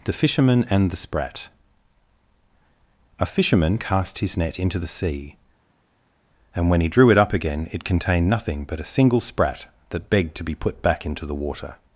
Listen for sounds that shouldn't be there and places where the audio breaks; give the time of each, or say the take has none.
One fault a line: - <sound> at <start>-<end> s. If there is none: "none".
none